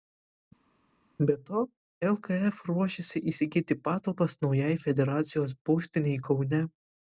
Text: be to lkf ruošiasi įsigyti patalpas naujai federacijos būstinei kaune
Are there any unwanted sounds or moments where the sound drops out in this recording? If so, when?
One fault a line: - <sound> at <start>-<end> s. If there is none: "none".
none